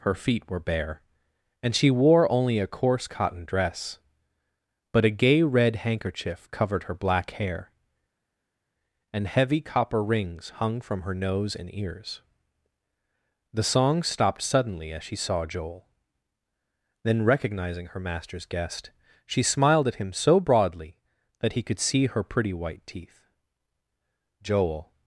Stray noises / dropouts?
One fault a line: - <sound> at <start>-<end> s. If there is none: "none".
none